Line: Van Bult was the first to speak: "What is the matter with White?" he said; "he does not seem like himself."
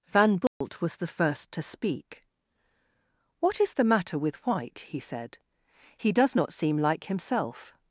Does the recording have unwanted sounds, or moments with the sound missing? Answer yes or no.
yes